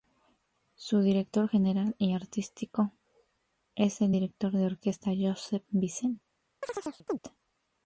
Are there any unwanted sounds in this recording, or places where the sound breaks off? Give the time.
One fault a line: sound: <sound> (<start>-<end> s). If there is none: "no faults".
sound: chirp (6.6-7.2 s)